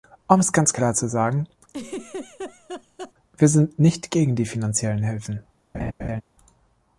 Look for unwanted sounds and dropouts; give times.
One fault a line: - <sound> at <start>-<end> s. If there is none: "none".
- laugh at 1.7-3.1 s
- laugh at 5.7-6.2 s